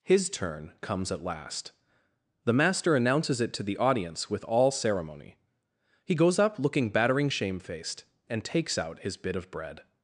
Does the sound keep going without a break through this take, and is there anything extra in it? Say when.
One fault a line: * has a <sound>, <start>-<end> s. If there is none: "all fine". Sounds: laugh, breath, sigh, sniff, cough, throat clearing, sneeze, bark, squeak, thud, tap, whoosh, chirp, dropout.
all fine